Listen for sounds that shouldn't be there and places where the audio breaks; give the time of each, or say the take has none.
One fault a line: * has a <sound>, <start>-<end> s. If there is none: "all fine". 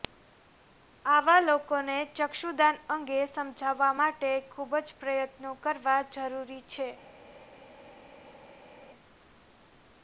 all fine